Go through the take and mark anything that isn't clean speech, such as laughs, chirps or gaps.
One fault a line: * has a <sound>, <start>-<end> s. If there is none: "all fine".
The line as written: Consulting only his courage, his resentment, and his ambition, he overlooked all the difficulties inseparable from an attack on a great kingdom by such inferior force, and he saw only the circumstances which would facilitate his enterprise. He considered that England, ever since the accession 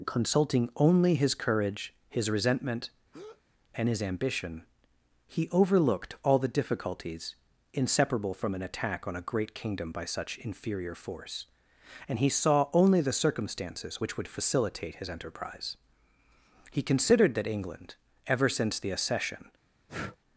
* has a breath, 3.1-3.4 s
* has a breath, 19.9-20.2 s